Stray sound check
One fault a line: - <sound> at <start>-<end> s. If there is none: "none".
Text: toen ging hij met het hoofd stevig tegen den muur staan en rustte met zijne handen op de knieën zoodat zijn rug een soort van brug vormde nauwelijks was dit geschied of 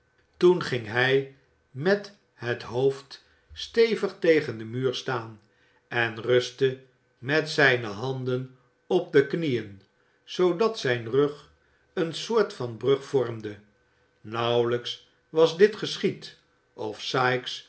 none